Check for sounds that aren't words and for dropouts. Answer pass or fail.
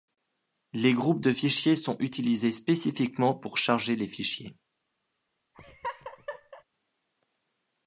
fail